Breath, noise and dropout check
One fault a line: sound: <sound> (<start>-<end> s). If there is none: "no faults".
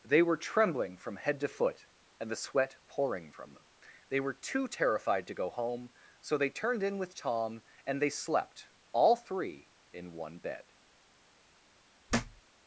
sound: thud (12.1-12.4 s)